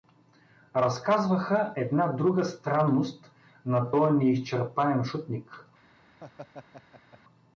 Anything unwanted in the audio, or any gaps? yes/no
yes